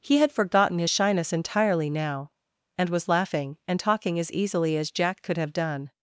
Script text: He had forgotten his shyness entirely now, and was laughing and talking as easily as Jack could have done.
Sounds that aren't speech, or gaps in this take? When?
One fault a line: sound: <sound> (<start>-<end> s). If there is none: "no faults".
no faults